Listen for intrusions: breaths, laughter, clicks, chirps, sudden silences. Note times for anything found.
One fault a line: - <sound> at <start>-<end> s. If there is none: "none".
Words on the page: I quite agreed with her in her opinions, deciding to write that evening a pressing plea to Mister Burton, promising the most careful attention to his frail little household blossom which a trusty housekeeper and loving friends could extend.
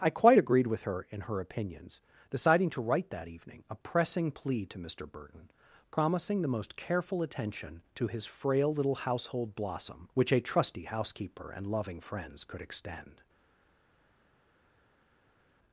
none